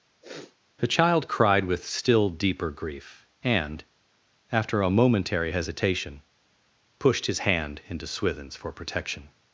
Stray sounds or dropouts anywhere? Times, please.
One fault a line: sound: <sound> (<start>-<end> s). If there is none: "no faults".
sound: sniff (0.2-0.6 s)